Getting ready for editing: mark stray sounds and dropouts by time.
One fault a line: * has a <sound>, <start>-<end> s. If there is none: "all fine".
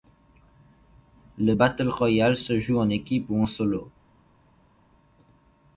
all fine